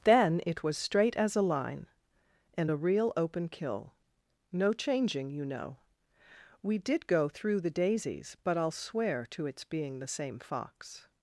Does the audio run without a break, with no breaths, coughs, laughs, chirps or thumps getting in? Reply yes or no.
yes